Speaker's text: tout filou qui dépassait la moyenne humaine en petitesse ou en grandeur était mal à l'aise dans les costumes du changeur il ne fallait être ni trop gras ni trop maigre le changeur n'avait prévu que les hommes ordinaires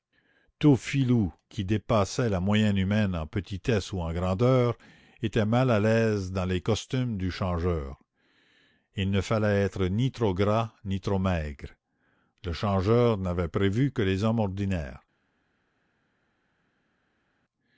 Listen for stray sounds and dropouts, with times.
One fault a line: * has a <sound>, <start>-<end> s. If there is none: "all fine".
all fine